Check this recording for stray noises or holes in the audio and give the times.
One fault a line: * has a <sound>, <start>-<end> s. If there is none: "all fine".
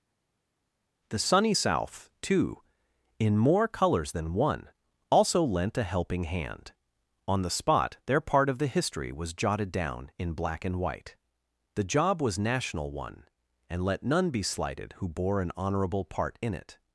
all fine